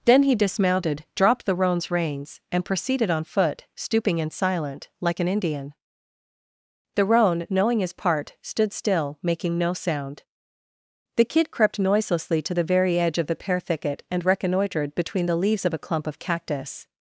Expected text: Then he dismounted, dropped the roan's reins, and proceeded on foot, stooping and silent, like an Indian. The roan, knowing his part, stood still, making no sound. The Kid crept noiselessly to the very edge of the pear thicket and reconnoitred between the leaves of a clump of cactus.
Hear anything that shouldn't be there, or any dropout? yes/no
no